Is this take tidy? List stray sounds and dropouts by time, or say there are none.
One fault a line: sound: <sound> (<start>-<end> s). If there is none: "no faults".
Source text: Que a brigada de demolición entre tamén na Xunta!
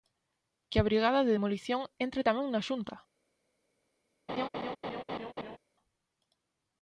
sound: laugh (4.3-5.6 s)